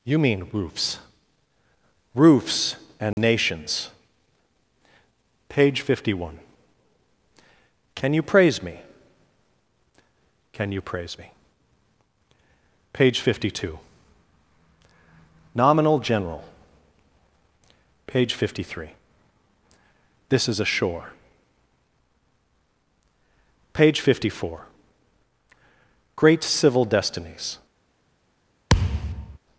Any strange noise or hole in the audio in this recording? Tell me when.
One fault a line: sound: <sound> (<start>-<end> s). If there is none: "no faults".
sound: dropout (3.1-3.2 s)
sound: thud (28.7-29.4 s)